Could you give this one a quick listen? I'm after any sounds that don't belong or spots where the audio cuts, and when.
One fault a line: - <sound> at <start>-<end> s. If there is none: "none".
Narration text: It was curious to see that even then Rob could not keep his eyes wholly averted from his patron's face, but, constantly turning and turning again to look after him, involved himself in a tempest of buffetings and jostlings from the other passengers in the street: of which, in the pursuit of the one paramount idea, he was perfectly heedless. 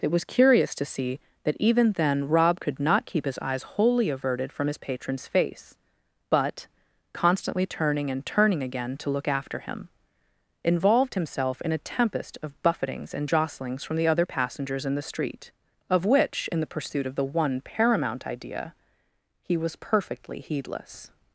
none